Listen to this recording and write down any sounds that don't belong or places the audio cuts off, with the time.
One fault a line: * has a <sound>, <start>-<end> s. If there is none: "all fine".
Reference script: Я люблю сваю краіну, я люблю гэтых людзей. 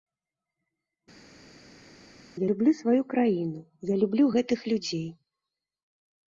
all fine